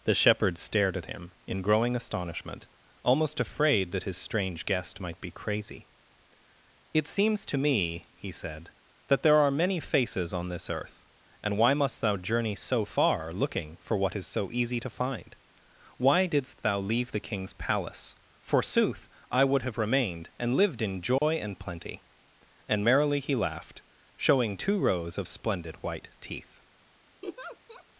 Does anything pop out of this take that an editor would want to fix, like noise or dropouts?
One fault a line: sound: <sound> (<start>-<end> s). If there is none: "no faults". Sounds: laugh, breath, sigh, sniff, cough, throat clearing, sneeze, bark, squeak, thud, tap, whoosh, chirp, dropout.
sound: dropout (21.2-21.2 s)
sound: laugh (27.2-27.8 s)